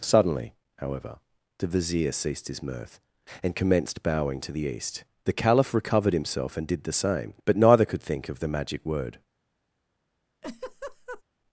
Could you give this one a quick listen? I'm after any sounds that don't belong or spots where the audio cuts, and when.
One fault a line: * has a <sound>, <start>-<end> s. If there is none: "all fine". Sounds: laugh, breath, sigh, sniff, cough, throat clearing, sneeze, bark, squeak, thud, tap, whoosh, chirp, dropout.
* has a laugh, 10.4-11.2 s